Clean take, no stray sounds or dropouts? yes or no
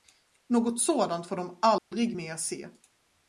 no